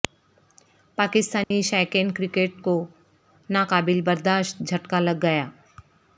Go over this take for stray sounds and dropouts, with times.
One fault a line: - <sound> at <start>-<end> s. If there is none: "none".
- dropout at 1.4-1.5 s